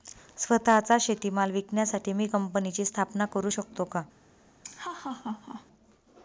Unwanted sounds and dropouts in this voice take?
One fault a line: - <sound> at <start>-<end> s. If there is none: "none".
- laugh at 4.6-5.7 s